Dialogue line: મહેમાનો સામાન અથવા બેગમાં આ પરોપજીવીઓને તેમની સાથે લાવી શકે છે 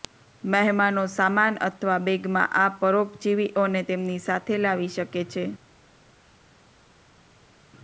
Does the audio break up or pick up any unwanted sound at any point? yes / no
no